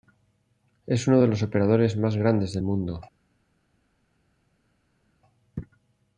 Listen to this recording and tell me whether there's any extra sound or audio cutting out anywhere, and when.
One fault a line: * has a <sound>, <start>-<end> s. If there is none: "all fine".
all fine